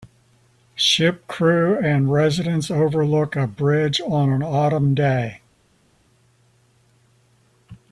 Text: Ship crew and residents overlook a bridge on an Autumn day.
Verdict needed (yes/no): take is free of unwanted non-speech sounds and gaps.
yes